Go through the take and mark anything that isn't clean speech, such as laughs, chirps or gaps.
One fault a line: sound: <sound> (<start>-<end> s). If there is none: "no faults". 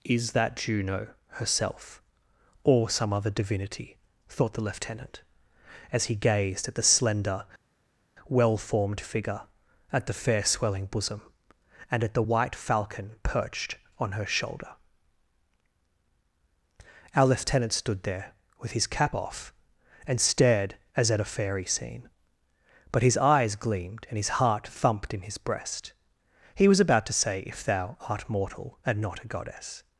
no faults